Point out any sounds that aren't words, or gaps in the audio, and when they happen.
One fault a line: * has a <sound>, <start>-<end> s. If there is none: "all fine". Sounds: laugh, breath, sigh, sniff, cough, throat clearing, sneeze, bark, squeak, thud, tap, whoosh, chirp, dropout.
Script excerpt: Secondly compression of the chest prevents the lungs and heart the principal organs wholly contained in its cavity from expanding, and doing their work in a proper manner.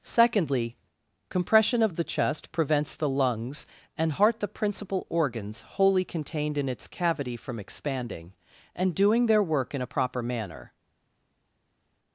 all fine